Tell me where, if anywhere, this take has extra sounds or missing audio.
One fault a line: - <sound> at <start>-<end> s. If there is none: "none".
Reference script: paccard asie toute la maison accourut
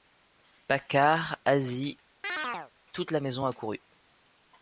- chirp at 2.2-2.7 s